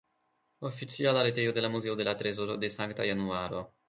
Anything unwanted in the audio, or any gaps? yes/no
no